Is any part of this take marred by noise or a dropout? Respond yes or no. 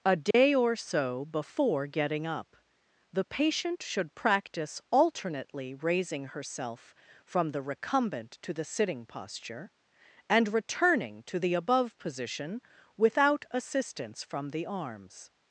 yes